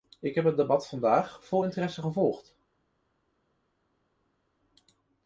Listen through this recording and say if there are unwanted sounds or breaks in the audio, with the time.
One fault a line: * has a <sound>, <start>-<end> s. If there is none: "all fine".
all fine